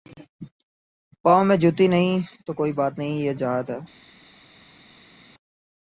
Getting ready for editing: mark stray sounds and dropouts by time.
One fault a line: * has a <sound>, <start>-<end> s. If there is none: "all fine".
all fine